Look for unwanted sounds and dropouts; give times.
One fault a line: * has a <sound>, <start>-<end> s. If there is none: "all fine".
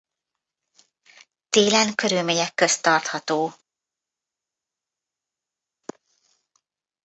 all fine